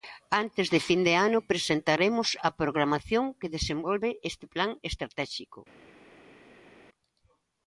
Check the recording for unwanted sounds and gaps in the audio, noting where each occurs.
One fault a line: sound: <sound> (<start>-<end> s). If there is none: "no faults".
no faults